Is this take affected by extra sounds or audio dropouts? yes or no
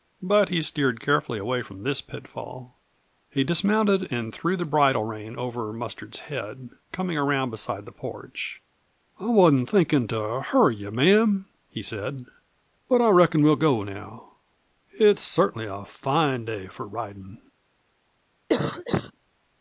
yes